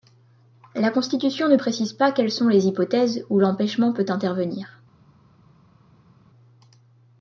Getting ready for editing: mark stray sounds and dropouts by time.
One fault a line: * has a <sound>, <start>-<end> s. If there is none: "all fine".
all fine